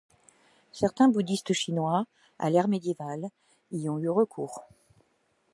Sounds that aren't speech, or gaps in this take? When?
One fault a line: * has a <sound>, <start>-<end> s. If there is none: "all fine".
all fine